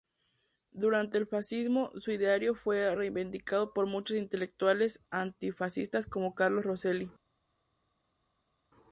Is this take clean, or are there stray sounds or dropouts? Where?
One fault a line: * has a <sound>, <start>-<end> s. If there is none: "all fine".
all fine